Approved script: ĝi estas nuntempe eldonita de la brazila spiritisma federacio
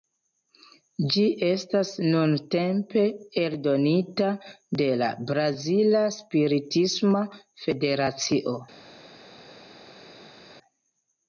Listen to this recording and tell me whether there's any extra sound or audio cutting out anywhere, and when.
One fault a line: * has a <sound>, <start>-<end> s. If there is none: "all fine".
all fine